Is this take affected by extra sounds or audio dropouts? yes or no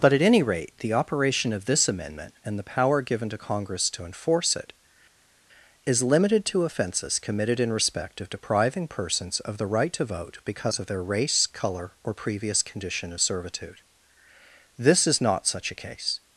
no